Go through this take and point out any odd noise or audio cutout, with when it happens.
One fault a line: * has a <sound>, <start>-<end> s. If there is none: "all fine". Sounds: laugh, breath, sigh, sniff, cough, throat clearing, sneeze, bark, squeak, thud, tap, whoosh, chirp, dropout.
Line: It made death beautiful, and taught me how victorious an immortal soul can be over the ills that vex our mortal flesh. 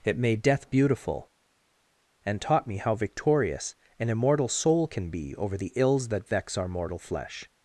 all fine